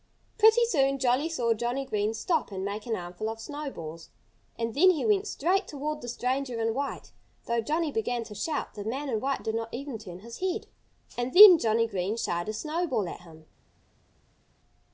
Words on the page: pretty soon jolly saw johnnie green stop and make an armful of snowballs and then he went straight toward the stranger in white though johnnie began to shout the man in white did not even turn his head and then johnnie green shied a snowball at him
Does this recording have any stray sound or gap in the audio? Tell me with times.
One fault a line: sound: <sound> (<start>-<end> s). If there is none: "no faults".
no faults